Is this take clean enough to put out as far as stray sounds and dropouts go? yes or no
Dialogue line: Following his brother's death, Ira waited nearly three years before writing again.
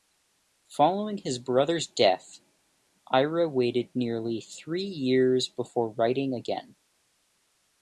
yes